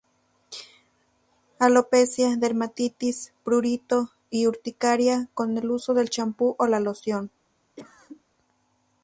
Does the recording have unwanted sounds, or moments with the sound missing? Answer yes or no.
yes